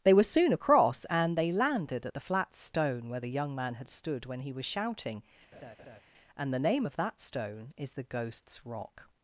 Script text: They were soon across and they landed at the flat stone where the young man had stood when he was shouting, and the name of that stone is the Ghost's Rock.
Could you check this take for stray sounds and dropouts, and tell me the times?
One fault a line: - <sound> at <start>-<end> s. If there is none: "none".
- laugh at 5.5-6.0 s